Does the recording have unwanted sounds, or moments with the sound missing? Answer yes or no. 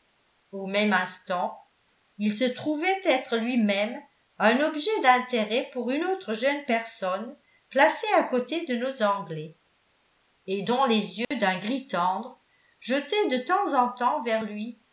yes